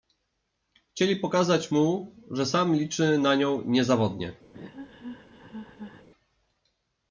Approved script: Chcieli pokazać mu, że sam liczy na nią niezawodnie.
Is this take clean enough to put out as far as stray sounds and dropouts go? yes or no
no